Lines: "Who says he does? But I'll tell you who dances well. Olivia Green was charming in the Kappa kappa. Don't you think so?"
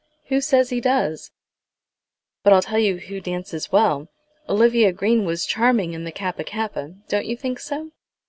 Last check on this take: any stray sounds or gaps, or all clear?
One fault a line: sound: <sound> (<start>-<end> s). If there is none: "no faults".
no faults